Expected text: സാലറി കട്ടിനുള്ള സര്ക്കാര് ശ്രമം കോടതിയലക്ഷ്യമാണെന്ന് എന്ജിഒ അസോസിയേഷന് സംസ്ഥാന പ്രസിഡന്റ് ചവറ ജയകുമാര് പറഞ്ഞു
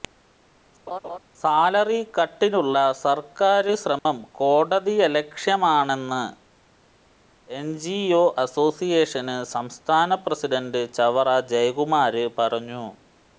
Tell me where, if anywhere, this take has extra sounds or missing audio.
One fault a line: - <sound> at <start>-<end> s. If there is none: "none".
- laugh at 0.9-1.2 s
- dropout at 4.0-4.1 s